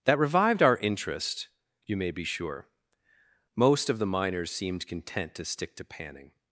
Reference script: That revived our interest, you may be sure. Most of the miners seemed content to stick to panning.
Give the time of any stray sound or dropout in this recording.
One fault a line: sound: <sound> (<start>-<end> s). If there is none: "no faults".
no faults